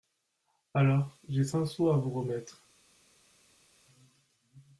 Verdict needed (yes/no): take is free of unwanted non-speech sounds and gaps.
yes